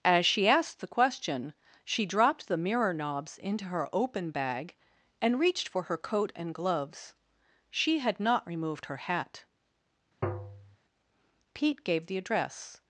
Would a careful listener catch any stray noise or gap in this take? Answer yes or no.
yes